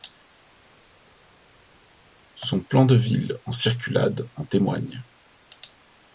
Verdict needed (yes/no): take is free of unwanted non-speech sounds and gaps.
yes